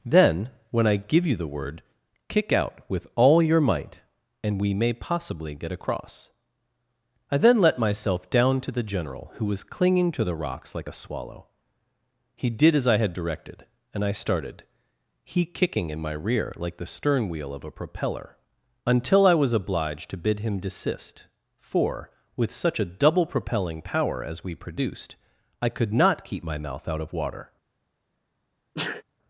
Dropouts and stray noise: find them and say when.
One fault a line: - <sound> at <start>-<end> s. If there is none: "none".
- sneeze at 28.8-29.0 s